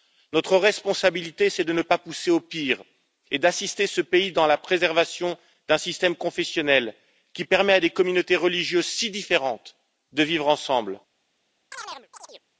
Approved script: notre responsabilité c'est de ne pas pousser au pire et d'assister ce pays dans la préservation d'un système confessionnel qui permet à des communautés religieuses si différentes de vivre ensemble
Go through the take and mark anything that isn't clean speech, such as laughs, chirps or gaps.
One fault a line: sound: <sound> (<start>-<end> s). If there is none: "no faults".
sound: chirp (11.7-12.4 s)